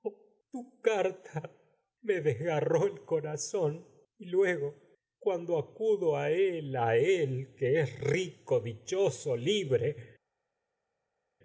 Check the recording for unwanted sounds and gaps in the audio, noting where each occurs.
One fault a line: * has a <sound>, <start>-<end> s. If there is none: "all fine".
all fine